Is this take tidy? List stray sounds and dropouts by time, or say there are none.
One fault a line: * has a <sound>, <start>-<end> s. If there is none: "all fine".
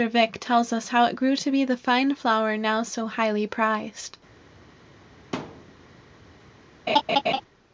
* has a thud, 5.3-5.8 s
* has a laugh, 6.9-7.4 s